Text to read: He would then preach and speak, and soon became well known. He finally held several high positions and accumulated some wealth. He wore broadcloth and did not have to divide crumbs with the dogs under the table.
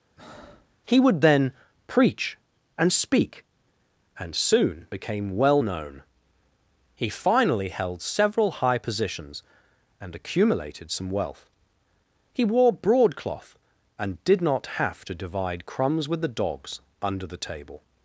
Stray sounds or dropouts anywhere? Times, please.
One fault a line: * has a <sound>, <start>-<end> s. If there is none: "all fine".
* has a breath, 0.2-0.7 s